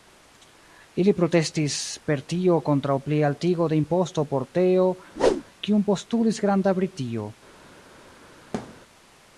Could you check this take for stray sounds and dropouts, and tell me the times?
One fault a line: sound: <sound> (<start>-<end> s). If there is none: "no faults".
sound: whoosh (5.2-5.4 s)
sound: thud (8.5-8.8 s)